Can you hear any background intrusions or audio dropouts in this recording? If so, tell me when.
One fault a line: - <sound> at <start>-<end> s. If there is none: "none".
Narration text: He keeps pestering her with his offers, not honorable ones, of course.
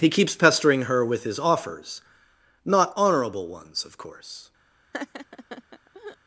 - laugh at 4.9-6.2 s